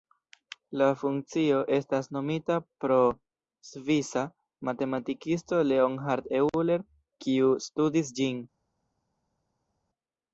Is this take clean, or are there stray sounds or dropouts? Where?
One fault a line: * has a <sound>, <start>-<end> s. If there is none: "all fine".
all fine